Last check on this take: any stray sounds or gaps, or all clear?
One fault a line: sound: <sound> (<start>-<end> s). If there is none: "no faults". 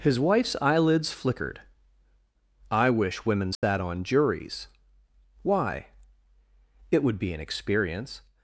sound: dropout (3.5-3.6 s)